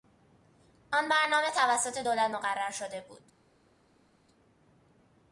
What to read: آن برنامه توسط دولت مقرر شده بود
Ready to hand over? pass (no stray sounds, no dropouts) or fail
pass